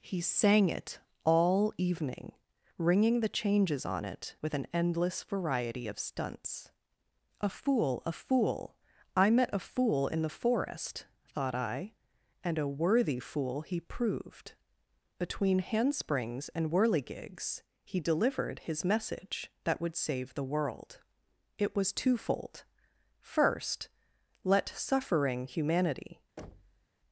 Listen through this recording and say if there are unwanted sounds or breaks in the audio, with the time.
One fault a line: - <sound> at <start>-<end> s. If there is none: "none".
- thud at 26.4-26.9 s